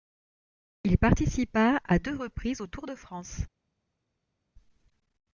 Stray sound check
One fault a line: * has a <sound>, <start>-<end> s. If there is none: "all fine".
all fine